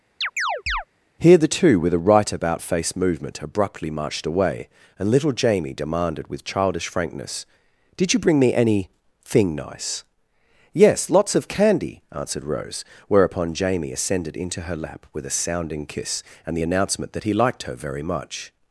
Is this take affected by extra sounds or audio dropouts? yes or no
yes